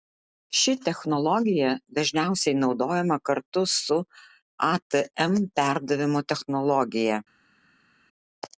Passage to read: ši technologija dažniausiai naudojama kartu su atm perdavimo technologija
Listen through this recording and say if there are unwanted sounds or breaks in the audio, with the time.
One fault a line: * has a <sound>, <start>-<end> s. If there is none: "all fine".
all fine